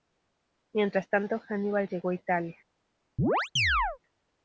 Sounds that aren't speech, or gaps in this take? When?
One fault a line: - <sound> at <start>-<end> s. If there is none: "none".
- chirp at 3.2-4.0 s